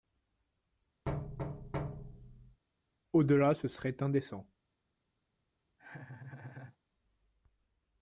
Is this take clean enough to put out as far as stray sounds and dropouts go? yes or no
no